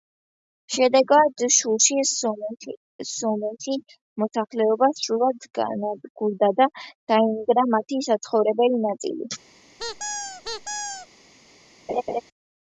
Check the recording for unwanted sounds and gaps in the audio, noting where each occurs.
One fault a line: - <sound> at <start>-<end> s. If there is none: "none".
- squeak at 9.8-11.1 s
- laugh at 11.9-12.2 s